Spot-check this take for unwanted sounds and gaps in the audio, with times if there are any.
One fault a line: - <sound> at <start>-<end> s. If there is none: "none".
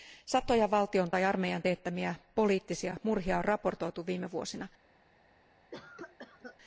- cough at 5.7-6.6 s